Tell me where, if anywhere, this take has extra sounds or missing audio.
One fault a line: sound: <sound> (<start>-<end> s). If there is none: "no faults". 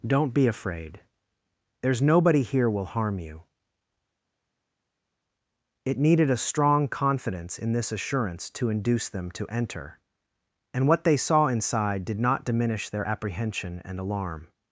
no faults